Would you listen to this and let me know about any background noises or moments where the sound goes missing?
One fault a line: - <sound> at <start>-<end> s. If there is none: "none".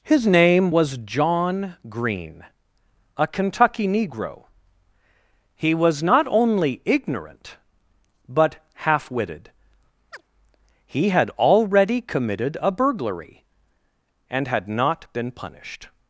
- chirp at 10.1-10.2 s